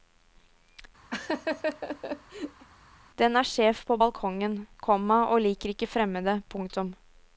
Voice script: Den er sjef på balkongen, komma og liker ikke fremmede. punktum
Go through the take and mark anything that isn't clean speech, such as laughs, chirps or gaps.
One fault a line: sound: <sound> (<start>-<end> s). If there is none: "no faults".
sound: laugh (1.1-2.7 s)